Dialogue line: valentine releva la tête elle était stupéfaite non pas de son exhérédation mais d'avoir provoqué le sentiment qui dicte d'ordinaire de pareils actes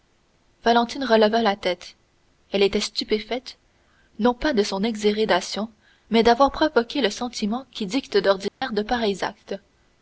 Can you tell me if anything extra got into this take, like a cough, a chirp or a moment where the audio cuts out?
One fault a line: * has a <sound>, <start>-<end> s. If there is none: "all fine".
* has a dropout, 8.5-8.6 s